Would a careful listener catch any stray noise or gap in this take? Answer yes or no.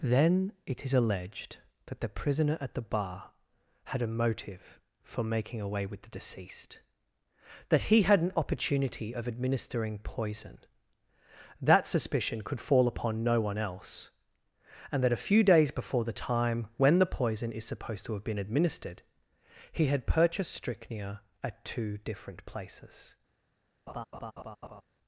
yes